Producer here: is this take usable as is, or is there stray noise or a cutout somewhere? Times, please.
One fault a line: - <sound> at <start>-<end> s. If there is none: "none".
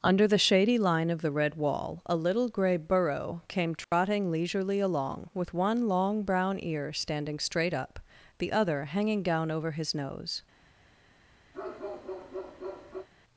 - dropout at 3.8-3.9 s
- bark at 11.5-13.1 s